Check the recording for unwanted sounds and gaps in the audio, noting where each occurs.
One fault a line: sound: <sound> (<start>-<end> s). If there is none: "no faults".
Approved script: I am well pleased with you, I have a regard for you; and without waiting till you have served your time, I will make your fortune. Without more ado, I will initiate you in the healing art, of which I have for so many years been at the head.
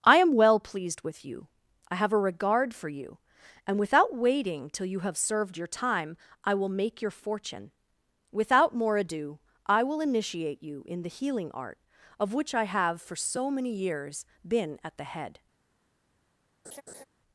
sound: laugh (16.6-17.0 s)